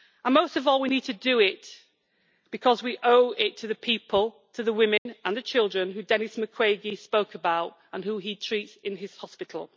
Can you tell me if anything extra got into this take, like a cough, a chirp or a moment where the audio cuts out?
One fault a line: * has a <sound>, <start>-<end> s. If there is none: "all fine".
* has a dropout, 5.0-5.1 s